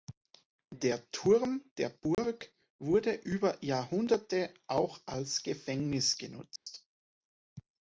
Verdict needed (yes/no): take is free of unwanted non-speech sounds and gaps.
no